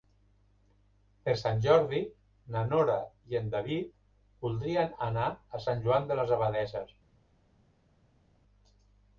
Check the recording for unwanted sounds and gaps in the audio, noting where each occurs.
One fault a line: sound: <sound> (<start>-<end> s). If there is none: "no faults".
no faults